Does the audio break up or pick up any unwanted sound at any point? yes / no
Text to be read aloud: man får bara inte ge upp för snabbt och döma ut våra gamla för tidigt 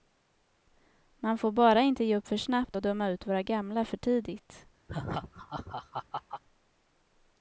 yes